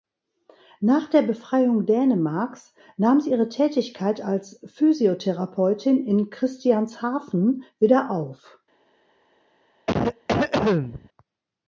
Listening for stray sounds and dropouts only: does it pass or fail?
fail